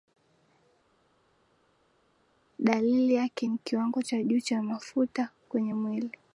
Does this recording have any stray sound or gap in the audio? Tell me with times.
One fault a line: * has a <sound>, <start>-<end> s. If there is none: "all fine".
all fine